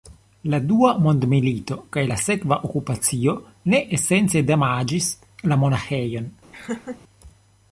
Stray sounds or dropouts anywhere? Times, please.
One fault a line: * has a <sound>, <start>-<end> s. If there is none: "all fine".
* has a laugh, 6.5-7.0 s